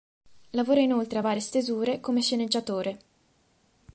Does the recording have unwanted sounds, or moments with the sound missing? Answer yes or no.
no